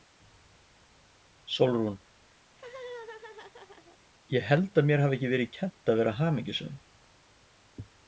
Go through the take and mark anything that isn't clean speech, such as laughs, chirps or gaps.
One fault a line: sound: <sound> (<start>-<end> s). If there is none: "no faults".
sound: laugh (2.5-4.0 s)